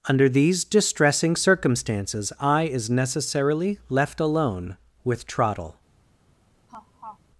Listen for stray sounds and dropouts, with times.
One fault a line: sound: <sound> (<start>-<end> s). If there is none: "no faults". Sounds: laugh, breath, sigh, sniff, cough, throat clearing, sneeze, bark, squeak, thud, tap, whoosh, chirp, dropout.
sound: laugh (6.7-7.2 s)